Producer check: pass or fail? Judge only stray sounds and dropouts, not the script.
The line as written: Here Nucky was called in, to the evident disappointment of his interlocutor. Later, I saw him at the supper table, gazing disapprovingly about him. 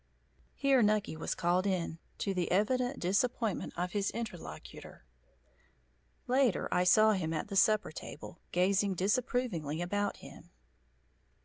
pass